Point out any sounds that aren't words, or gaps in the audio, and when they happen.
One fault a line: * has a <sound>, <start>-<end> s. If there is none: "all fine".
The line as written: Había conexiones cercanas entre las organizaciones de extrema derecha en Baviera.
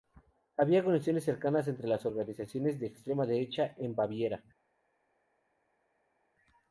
all fine